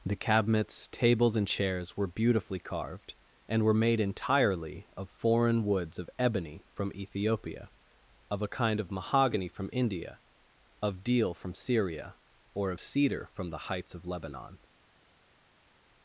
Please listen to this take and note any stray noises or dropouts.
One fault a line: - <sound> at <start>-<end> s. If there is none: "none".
none